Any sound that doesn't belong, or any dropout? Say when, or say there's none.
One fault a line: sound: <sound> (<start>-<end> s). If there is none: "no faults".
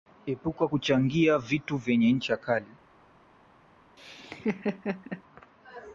sound: laugh (4.0-5.2 s)